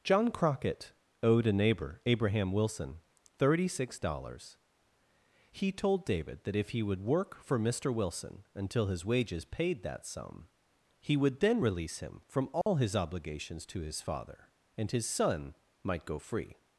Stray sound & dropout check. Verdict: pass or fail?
fail